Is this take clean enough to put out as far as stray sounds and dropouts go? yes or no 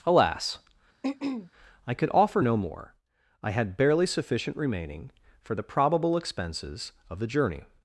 no